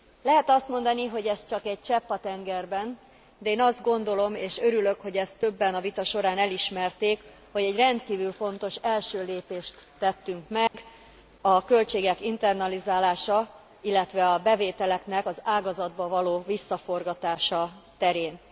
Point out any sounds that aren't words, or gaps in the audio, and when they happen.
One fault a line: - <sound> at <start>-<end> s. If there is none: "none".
- dropout at 10.7-10.7 s